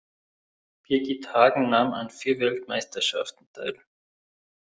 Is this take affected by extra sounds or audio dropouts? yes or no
no